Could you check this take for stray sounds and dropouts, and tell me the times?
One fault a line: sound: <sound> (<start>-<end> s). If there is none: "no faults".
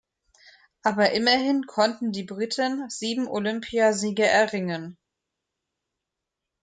no faults